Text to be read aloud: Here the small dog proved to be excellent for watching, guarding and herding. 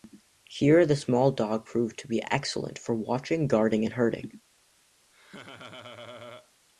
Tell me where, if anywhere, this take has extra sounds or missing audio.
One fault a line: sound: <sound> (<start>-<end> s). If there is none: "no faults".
sound: laugh (5.1-6.5 s)